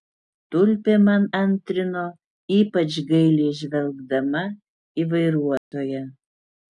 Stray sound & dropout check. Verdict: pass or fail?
fail